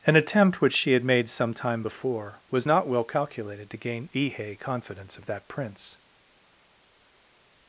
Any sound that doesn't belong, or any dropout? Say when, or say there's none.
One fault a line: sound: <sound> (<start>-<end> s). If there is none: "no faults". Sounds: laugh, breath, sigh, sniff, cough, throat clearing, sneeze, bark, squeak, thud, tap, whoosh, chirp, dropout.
no faults